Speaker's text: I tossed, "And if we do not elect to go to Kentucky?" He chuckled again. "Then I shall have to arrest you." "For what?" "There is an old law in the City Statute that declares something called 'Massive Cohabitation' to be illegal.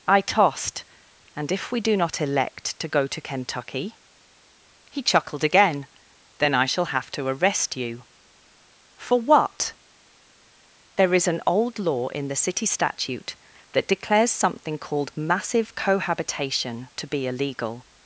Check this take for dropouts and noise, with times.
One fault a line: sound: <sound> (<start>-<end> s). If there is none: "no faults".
no faults